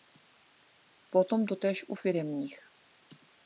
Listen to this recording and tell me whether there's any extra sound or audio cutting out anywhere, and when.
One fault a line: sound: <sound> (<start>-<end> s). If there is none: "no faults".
no faults